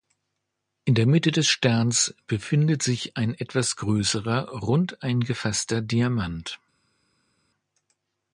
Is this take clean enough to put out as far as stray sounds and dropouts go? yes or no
yes